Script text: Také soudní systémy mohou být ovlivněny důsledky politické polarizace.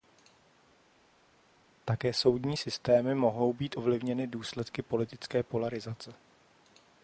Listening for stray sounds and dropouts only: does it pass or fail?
pass